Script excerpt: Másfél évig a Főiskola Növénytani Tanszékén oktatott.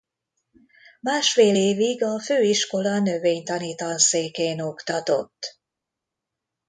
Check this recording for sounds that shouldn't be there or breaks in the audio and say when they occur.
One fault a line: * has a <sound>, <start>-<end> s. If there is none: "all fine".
all fine